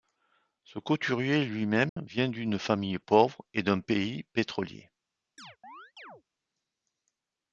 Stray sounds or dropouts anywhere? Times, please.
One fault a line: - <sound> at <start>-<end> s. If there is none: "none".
- dropout at 1.9-2.0 s
- chirp at 5.4-6.2 s